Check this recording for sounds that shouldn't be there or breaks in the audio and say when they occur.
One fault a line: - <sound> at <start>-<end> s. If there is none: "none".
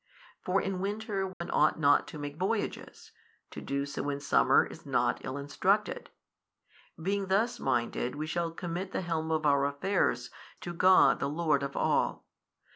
- dropout at 1.3-1.4 s